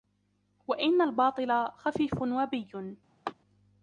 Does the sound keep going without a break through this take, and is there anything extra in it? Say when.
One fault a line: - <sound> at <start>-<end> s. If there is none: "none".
- laugh at 3.3-3.3 s